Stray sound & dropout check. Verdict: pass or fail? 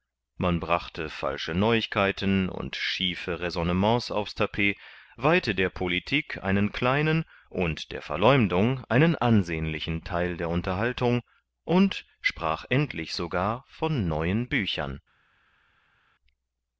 pass